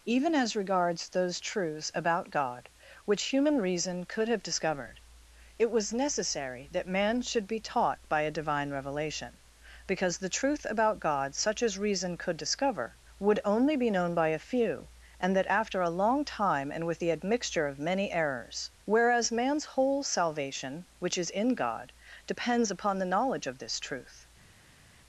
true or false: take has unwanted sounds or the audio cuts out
false